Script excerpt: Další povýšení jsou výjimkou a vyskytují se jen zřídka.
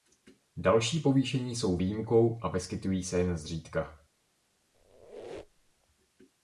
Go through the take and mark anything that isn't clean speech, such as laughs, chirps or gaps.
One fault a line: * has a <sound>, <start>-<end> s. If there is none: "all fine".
* has a squeak, 4.7-5.9 s